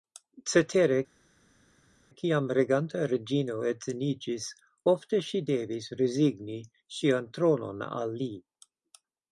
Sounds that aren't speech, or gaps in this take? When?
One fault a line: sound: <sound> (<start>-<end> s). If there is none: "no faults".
no faults